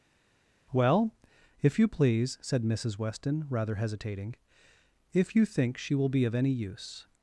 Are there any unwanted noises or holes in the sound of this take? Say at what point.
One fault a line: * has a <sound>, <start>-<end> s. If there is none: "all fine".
all fine